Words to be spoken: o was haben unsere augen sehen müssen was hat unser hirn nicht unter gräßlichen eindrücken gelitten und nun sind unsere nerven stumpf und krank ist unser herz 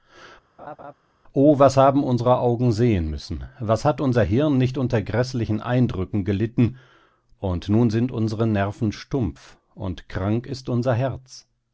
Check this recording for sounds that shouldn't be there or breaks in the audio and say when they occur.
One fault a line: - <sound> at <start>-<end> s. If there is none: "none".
- laugh at 0.6-0.9 s